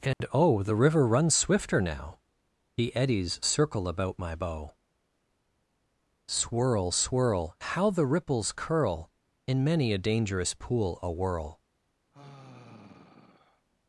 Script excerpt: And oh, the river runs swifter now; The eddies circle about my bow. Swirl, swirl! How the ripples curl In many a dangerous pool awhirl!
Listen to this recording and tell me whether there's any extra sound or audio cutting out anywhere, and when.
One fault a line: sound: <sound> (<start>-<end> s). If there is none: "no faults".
sound: dropout (0.1-0.2 s)
sound: sigh (12.1-13.7 s)